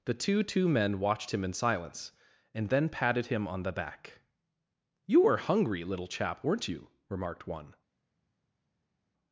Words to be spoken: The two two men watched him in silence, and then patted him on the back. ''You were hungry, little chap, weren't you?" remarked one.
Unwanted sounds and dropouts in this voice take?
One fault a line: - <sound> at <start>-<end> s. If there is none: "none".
none